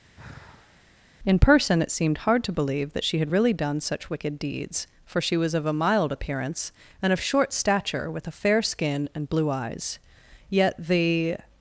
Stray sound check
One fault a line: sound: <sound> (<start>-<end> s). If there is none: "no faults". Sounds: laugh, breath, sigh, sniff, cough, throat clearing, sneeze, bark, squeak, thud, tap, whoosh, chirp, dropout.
sound: sigh (0.1-0.9 s)